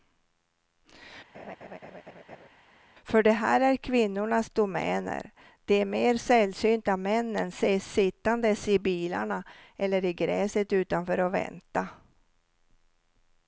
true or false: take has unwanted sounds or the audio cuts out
true